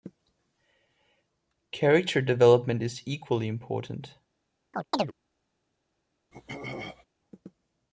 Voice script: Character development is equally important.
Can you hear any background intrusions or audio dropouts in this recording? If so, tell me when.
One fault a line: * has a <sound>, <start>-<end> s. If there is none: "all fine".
* has a chirp, 4.7-5.1 s
* has a throat clearing, 6.3-7.1 s